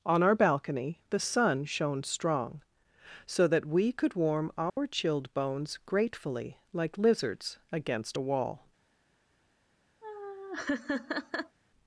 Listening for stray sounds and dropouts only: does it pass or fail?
fail